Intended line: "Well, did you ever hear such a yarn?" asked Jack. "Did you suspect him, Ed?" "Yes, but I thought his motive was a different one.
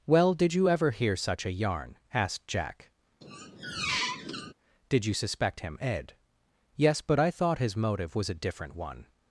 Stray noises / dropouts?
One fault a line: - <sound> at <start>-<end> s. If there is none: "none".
- squeak at 3.2-4.5 s